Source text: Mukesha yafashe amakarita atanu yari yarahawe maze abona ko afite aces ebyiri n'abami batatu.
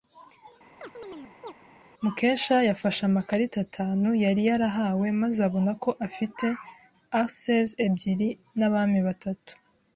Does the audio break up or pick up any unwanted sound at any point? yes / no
yes